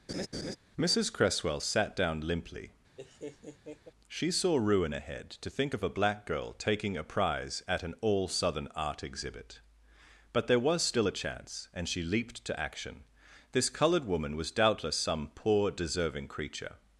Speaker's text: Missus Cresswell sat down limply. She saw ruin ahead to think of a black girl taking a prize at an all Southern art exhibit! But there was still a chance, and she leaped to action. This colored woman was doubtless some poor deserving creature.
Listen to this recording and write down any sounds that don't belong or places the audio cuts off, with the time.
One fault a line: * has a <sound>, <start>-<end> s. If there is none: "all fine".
* has a laugh, 0.1-0.6 s
* has a laugh, 3.0-3.9 s